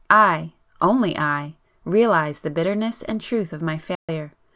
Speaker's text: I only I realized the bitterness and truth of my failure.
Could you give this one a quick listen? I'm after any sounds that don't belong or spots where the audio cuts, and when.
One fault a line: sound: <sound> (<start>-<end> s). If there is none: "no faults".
sound: dropout (3.9-4.1 s)